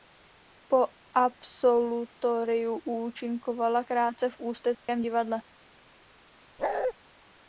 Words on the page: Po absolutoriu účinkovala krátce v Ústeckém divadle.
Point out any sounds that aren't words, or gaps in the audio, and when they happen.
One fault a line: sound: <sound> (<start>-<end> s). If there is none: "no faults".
sound: dropout (4.7-4.9 s)
sound: bark (6.6-6.9 s)